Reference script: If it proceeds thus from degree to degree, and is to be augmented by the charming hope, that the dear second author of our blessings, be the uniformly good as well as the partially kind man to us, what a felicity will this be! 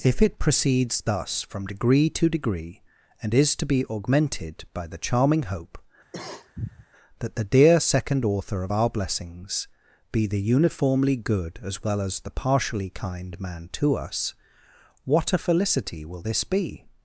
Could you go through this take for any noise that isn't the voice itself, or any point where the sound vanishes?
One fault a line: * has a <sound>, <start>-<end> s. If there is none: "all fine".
* has a cough, 6.1-6.9 s